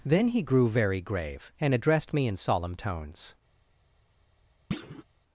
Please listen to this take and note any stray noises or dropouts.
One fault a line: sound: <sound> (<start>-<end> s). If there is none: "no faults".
sound: thud (4.7-5.0 s)